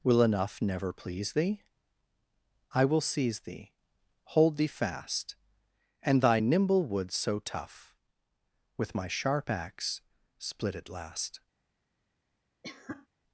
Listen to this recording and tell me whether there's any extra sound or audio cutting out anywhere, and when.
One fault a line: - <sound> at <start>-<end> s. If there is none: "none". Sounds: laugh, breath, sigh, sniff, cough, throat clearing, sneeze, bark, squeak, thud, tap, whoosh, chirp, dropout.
- cough at 12.6-13.1 s